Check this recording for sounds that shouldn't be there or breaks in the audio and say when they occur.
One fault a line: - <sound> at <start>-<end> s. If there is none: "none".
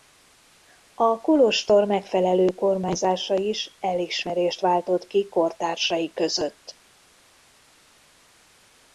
none